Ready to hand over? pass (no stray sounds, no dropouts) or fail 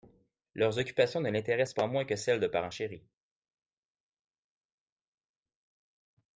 pass